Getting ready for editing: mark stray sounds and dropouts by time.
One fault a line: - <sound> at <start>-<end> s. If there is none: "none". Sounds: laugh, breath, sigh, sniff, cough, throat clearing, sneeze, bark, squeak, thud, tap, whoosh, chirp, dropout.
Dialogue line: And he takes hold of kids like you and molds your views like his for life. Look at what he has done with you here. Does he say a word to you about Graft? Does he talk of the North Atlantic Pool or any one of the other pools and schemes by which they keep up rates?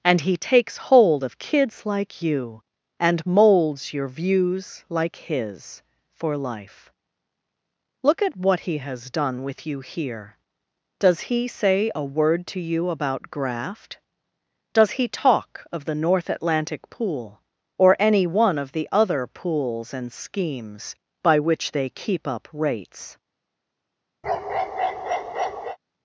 - bark at 24.2-25.8 s